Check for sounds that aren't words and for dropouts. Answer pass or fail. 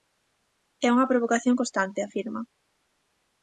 pass